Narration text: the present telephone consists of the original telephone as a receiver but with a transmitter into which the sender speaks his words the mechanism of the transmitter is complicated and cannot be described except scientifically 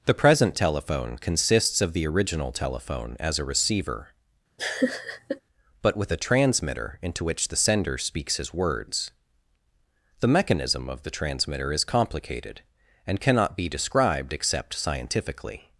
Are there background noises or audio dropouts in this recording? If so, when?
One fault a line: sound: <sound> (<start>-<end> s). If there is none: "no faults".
sound: laugh (4.6-5.4 s)